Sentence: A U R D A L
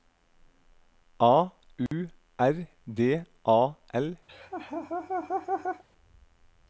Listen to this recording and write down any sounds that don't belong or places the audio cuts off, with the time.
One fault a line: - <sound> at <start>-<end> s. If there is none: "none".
- dropout at 1.9-1.9 s
- laugh at 4.3-5.8 s